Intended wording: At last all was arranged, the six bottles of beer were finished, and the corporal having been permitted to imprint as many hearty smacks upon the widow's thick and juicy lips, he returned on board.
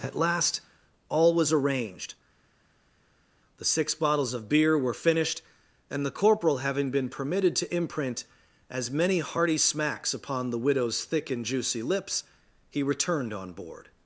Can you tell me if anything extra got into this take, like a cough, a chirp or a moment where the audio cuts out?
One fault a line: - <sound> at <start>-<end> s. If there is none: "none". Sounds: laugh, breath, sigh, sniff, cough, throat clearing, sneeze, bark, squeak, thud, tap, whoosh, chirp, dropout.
none